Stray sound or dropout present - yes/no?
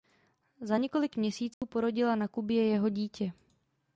yes